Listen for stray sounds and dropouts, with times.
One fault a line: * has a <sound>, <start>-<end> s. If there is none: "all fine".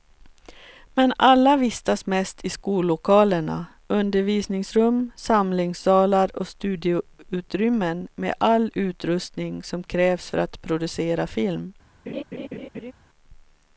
* has a laugh, 12.1-12.9 s